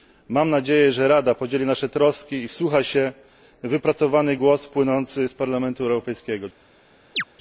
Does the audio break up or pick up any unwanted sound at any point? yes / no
yes